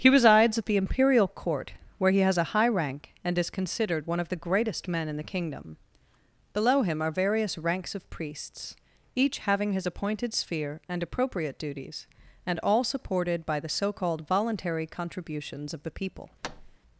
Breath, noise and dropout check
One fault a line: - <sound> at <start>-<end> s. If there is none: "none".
- thud at 16.4-16.8 s